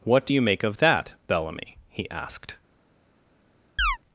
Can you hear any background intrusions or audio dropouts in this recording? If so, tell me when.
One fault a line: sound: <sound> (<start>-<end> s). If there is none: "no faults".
sound: chirp (3.8-4.0 s)